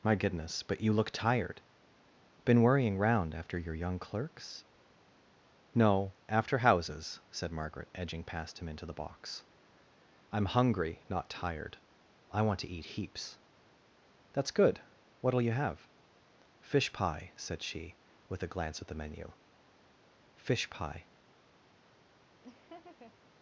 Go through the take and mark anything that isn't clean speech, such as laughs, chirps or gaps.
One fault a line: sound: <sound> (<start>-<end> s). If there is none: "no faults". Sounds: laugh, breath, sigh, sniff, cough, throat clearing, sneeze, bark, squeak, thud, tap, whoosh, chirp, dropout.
sound: laugh (22.4-23.2 s)